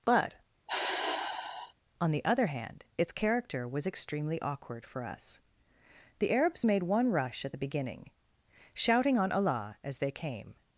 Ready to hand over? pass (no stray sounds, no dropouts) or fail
fail